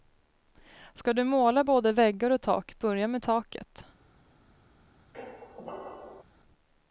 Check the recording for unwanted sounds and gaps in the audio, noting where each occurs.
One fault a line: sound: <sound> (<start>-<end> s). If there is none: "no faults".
sound: squeak (5.1-6.2 s)